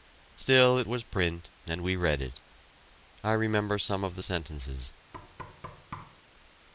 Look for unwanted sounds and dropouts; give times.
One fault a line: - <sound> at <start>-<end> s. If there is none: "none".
- thud at 5.1-6.2 s